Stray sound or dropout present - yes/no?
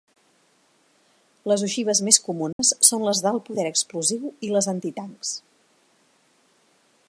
yes